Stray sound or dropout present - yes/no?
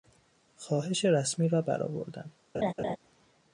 yes